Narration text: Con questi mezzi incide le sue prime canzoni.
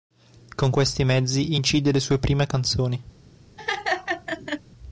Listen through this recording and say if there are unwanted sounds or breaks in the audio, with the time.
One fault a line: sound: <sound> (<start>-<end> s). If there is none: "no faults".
sound: laugh (3.6-4.6 s)